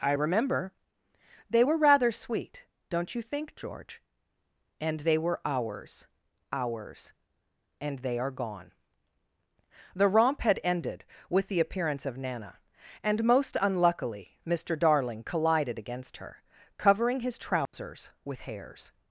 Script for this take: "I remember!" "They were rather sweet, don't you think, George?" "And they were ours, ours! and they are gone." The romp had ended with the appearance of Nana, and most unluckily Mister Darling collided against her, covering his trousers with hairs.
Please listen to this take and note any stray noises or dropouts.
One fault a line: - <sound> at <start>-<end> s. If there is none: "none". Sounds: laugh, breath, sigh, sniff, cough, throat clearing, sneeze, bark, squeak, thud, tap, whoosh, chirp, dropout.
- dropout at 17.7-17.7 s